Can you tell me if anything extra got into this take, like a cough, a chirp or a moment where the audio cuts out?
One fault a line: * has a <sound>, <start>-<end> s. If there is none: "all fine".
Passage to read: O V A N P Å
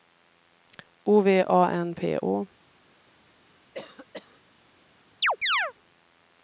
* has a cough, 3.7-4.4 s
* has a chirp, 5.2-5.7 s